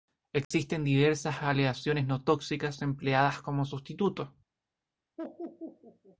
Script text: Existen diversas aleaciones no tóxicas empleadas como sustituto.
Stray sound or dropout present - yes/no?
yes